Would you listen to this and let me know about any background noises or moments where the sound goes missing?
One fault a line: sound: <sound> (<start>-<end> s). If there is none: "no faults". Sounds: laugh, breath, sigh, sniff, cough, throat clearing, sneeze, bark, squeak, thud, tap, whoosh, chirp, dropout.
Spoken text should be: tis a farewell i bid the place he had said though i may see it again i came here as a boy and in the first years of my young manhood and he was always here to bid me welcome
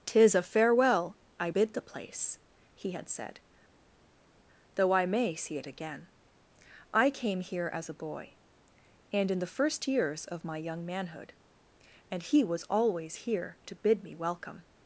no faults